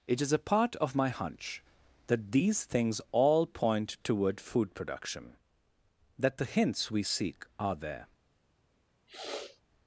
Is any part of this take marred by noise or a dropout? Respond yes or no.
yes